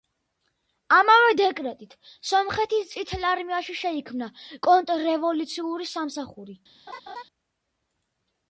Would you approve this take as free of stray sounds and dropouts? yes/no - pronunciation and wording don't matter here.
no